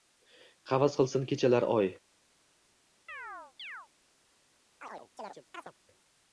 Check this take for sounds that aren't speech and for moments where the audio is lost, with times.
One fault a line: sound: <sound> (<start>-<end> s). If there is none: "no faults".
sound: chirp (3.1-3.9 s)
sound: chirp (4.8-5.7 s)